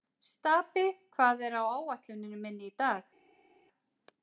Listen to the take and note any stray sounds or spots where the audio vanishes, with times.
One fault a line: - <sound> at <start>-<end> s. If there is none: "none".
none